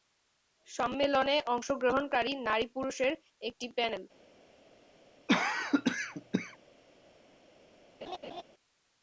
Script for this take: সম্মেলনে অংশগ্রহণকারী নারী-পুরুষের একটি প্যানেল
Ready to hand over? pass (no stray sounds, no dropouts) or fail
fail